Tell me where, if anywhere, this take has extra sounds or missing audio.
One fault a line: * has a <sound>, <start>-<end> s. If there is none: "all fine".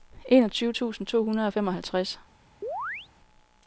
* has a chirp, 2.6-3.1 s